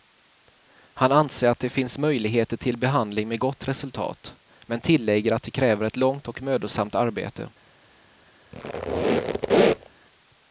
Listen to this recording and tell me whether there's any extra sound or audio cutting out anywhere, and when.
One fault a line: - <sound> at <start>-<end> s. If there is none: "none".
- squeak at 8.5-9.9 s